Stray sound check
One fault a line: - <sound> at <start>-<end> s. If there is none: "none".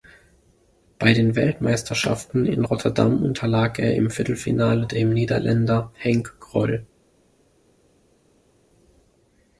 none